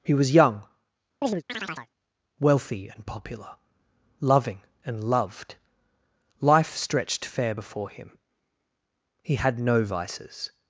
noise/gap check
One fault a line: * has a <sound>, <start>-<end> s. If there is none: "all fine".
* has a chirp, 1.2-1.9 s